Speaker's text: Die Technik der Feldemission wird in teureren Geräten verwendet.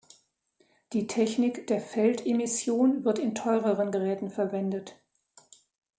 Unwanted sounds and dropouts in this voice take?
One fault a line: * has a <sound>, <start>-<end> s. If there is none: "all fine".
all fine